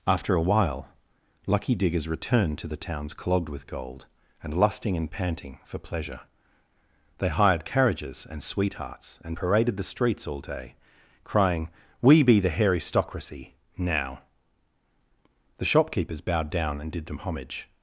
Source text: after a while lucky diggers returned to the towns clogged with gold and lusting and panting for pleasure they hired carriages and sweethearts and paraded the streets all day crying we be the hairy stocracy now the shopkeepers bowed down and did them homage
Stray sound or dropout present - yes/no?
no